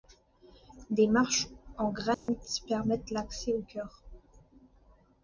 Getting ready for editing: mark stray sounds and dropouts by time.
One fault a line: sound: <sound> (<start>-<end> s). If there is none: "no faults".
sound: dropout (2.1-2.3 s)